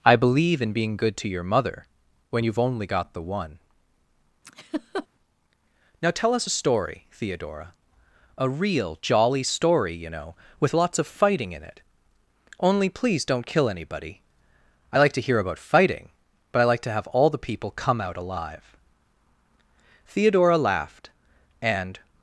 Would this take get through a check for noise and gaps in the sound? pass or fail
fail